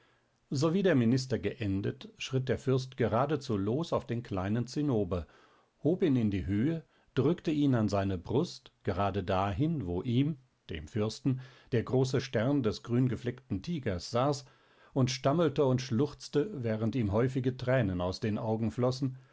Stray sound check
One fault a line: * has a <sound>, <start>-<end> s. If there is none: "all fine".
all fine